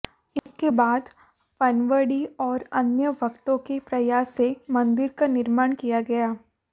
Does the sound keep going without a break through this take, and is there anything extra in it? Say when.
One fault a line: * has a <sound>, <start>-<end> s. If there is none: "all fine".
* has a dropout, 0.4-0.5 s